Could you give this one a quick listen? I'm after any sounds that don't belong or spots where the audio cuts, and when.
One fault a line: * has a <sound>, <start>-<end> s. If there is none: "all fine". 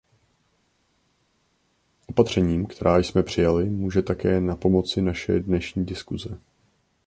all fine